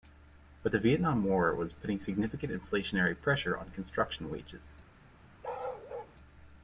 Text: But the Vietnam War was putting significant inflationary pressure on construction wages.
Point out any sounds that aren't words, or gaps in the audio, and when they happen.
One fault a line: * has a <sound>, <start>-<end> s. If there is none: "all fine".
* has a bark, 5.4-6.2 s